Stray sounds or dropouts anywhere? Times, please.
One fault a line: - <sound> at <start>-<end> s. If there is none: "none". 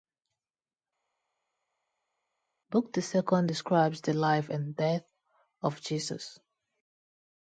none